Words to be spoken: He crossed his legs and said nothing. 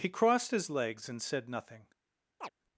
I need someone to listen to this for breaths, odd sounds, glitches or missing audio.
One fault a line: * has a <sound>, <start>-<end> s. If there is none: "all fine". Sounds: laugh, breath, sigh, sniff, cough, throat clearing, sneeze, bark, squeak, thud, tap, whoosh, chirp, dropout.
* has a chirp, 2.4-2.5 s